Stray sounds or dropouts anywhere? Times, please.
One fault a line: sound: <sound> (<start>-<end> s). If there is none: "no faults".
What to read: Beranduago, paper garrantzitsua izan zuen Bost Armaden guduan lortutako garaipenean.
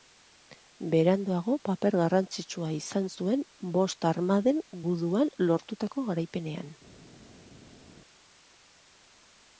no faults